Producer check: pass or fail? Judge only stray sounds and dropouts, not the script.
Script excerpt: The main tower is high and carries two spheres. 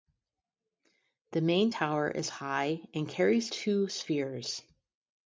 pass